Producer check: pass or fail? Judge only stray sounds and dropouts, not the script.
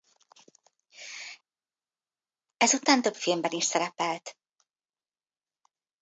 pass